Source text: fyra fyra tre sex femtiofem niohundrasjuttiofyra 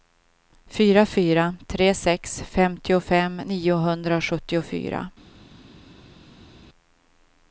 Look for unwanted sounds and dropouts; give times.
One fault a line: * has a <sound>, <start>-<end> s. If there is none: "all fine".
all fine